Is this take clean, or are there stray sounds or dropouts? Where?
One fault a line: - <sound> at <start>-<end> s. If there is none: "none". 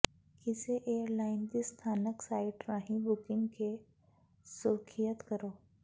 none